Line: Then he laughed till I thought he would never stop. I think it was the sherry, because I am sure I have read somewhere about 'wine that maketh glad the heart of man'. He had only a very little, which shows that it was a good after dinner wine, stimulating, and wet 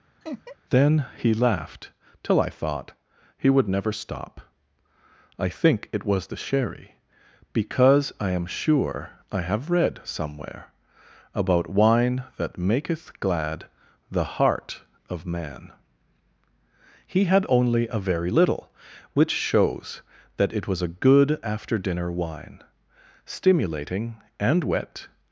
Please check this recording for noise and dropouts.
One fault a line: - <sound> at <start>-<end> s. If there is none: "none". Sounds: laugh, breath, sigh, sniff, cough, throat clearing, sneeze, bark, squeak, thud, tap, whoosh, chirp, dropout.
- laugh at 0.2-0.6 s